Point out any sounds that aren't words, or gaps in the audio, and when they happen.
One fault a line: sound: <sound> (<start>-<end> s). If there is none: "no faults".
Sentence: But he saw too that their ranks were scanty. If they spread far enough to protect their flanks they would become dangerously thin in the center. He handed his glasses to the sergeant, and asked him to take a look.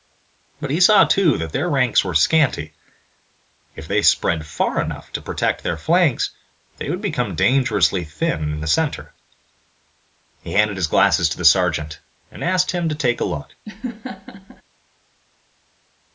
sound: laugh (13.6-14.6 s)